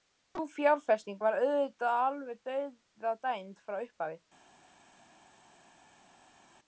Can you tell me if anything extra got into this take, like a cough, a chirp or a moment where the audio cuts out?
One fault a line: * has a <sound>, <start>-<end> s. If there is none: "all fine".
all fine